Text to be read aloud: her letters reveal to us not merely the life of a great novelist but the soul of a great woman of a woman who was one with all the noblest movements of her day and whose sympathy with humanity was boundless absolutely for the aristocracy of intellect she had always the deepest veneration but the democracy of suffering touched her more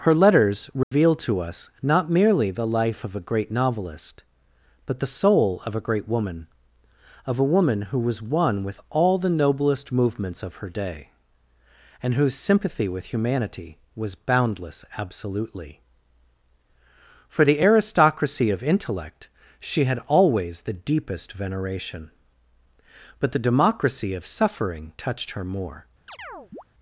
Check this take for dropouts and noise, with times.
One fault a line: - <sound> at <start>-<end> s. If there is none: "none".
- dropout at 0.8-0.9 s
- chirp at 26.1-26.6 s